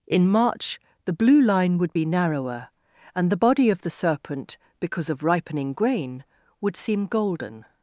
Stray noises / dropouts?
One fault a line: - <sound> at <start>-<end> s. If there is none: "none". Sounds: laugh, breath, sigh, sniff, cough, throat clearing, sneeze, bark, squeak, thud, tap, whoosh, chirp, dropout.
none